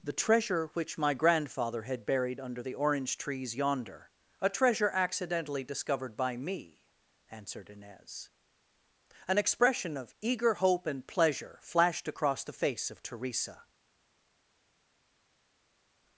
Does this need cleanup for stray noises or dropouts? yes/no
no